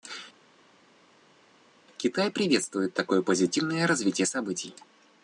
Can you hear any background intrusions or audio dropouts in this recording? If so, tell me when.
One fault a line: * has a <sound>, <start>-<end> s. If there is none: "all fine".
all fine